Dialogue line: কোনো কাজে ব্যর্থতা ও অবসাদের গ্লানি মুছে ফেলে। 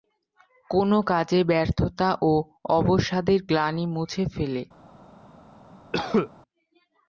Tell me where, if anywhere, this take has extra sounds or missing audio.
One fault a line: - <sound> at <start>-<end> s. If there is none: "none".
- cough at 5.9-6.3 s